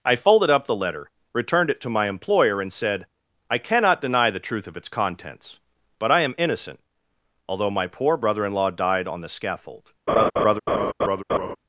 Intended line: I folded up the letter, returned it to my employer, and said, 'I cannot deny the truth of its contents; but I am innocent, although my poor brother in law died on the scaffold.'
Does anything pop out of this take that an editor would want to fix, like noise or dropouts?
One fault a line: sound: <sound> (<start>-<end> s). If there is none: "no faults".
sound: laugh (10.1-11.6 s)